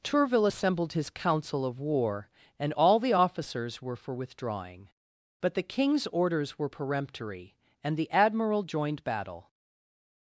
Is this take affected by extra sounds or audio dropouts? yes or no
no